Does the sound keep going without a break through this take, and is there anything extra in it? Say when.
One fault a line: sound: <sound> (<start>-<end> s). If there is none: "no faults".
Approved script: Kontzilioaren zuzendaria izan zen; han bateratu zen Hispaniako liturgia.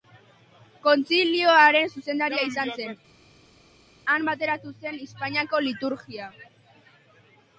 no faults